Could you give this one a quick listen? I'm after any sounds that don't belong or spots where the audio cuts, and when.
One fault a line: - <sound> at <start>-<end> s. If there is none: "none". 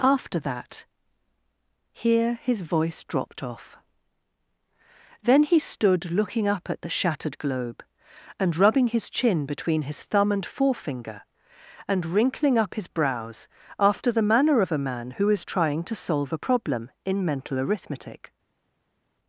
none